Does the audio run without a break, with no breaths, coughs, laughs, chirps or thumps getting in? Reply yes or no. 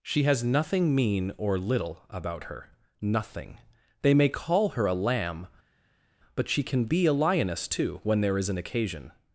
yes